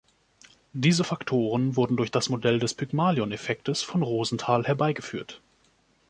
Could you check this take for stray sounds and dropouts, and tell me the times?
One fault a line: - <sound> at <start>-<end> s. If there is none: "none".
none